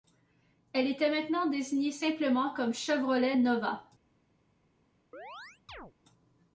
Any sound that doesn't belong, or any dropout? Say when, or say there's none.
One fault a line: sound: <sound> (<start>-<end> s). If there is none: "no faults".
sound: chirp (5.1-5.9 s)